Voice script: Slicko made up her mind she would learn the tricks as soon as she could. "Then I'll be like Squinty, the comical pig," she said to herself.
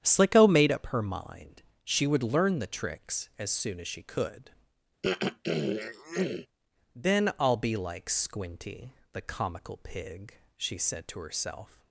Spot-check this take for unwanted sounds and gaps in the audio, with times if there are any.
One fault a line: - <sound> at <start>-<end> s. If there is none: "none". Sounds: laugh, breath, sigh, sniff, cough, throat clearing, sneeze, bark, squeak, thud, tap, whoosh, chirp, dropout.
- throat clearing at 5.0-6.5 s